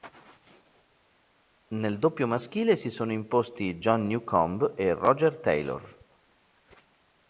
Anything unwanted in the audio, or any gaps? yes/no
no